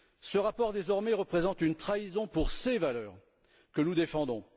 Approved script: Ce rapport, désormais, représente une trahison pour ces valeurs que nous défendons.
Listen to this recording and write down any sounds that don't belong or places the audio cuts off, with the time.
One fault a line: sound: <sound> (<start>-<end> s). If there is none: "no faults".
no faults